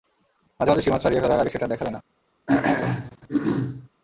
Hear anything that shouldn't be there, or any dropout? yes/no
yes